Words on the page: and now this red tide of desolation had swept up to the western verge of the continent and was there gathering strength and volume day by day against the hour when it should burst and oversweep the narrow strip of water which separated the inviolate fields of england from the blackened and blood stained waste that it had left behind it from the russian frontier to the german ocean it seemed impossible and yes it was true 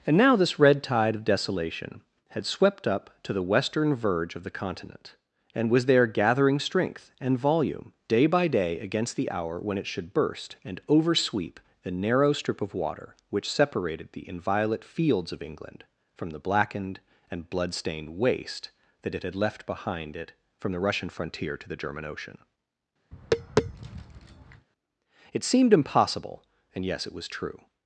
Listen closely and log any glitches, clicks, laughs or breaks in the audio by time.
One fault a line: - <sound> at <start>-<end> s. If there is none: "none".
- tap at 23.1-24.7 s